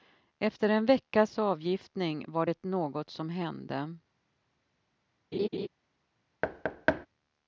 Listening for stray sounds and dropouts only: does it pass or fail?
fail